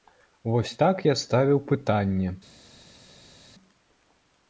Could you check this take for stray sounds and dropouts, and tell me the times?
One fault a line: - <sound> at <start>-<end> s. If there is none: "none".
none